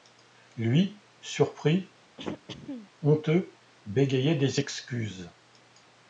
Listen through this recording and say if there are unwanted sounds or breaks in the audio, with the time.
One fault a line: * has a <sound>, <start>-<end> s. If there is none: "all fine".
* has a throat clearing, 2.2-2.9 s